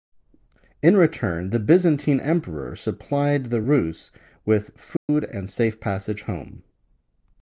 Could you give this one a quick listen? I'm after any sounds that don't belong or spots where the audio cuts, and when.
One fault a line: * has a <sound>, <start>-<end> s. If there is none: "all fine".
* has a dropout, 5.0-5.1 s